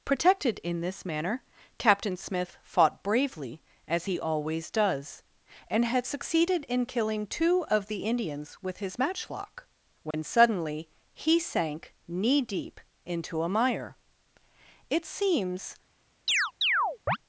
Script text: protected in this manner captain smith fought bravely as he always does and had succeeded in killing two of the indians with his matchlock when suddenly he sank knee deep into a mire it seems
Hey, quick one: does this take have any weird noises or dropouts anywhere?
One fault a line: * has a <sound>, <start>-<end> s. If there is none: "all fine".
* has a dropout, 10.1-10.1 s
* has a chirp, 16.3-17.2 s